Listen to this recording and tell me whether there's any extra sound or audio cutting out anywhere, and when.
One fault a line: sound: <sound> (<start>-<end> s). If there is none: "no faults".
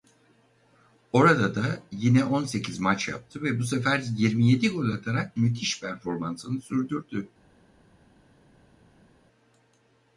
no faults